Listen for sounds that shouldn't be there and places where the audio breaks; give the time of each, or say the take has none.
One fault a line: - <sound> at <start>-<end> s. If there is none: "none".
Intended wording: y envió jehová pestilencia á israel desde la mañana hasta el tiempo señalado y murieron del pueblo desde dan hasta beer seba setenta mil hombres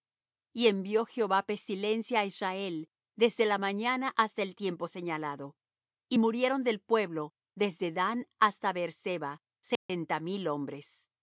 - dropout at 9.8-9.9 s